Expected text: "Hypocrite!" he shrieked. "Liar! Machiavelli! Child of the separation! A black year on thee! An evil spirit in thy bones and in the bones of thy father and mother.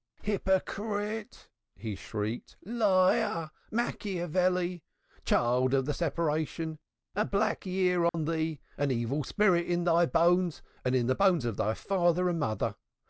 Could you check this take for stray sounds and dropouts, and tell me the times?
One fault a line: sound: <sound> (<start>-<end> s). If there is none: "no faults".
sound: dropout (8.1-8.1 s)